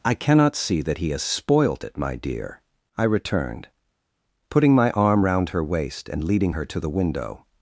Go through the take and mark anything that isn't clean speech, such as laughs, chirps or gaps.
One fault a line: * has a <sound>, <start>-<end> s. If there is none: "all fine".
all fine